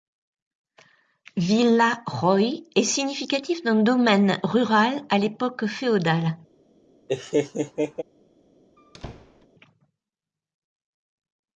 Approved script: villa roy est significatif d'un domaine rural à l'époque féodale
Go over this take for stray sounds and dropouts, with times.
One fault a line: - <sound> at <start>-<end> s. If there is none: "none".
- laugh at 7.1-8.0 s
- squeak at 8.8-9.5 s